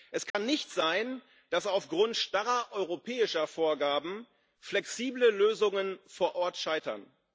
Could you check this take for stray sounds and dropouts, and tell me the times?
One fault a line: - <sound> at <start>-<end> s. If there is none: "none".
- dropout at 0.3-0.3 s